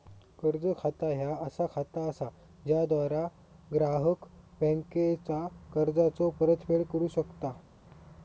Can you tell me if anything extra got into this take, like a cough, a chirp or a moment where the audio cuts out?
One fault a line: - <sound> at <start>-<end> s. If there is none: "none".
none